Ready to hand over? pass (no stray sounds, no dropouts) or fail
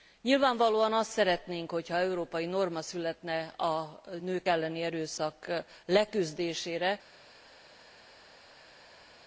pass